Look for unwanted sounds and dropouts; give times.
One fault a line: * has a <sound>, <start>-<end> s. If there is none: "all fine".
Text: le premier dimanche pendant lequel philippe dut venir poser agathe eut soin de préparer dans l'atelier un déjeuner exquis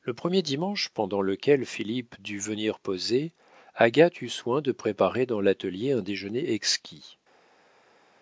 all fine